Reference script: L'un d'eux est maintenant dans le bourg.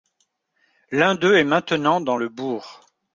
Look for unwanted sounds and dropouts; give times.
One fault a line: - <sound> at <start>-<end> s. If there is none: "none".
none